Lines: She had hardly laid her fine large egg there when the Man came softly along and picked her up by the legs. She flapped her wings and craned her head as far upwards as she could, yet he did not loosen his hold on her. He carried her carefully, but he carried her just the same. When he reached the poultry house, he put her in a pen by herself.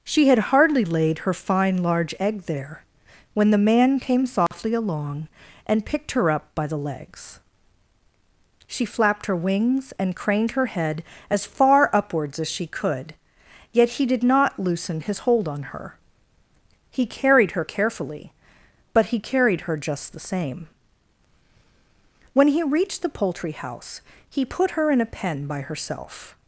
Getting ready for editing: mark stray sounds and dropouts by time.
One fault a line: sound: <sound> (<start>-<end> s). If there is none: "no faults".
sound: dropout (4.5-4.5 s)